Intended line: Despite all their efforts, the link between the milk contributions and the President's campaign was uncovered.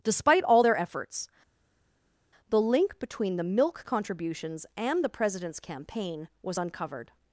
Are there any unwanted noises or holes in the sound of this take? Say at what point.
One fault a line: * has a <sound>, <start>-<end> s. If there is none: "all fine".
all fine